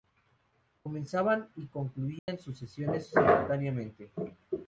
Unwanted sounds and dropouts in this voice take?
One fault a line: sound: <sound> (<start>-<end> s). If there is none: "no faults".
sound: dropout (2.2-2.3 s)